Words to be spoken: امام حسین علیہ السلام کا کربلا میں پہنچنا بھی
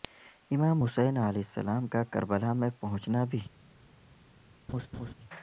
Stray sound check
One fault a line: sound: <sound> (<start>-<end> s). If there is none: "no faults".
sound: laugh (4.7-5.1 s)